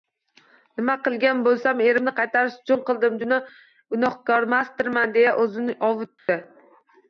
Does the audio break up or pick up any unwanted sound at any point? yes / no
yes